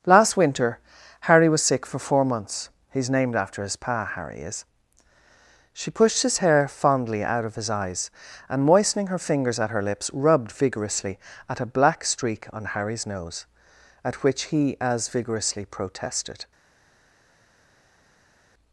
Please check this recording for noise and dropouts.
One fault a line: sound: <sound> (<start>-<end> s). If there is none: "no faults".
no faults